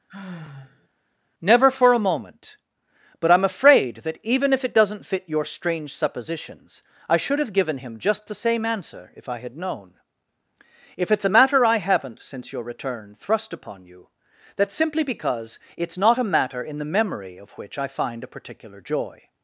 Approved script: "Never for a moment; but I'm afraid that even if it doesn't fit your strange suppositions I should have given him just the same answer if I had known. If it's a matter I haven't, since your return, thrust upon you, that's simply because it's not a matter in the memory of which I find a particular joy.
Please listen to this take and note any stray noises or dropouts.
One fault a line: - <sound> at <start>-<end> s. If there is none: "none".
- sigh at 0.1-0.9 s